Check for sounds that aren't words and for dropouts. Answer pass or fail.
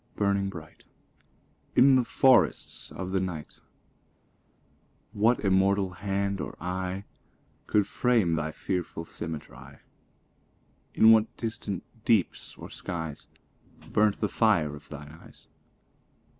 pass